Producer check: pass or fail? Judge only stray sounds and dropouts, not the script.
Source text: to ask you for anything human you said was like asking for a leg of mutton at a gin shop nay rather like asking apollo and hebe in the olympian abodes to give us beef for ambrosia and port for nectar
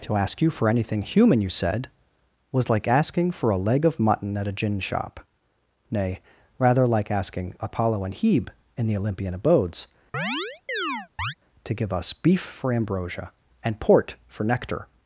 fail